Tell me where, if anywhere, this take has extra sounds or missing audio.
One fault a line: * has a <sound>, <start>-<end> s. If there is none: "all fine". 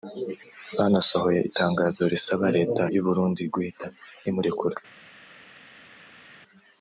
all fine